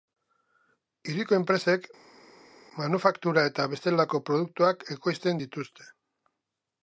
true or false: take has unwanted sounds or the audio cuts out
false